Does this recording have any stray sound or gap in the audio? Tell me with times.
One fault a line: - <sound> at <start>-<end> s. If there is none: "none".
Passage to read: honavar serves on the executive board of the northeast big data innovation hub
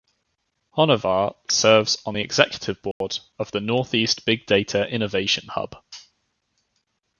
- dropout at 2.9-3.0 s